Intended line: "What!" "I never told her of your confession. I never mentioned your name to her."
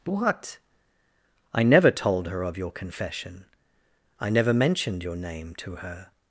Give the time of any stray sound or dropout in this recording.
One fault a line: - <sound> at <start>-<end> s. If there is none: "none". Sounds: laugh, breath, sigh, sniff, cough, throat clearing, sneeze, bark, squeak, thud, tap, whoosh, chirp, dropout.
none